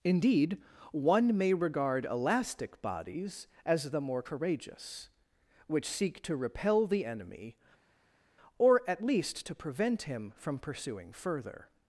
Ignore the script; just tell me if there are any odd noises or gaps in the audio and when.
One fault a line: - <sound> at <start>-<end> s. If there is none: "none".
none